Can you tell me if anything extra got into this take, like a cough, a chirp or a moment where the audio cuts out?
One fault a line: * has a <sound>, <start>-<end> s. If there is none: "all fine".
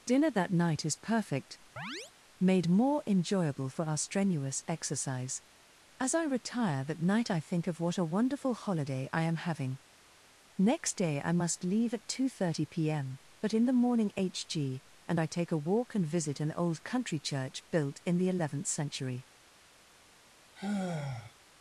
* has a chirp, 1.8-2.1 s
* has a sigh, 20.6-21.3 s